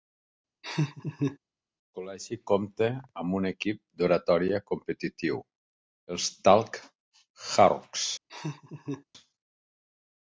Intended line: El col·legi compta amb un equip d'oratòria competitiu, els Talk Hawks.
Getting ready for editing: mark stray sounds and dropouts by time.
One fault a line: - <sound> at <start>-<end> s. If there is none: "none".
- laugh at 0.6-1.4 s
- laugh at 8.3-9.0 s